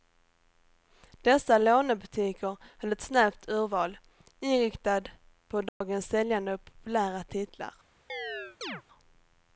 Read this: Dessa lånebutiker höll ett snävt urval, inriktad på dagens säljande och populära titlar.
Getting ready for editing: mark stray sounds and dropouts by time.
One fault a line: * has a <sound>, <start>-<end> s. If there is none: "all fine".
* has a dropout, 5.7-5.8 s
* has a chirp, 8.1-8.8 s